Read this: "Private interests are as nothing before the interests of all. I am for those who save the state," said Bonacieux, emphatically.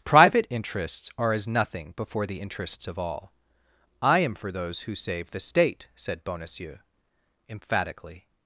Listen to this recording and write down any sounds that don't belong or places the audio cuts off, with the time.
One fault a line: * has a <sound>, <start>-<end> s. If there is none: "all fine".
all fine